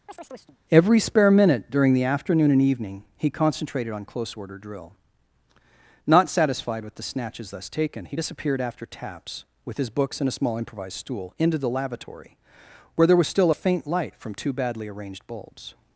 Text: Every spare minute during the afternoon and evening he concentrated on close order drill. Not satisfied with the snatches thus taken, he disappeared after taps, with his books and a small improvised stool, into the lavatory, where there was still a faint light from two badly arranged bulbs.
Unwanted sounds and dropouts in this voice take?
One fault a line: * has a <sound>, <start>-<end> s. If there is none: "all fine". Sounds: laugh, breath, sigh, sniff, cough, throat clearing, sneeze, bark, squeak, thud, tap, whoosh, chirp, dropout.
* has a chirp, 0.1-0.6 s